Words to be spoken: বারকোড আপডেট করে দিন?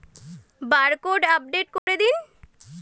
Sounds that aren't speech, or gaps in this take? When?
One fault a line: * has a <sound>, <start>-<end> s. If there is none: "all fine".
* has a dropout, 1.8-1.9 s